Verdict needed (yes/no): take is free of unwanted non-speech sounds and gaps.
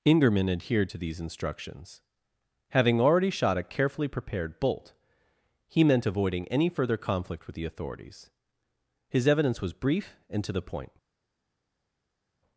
yes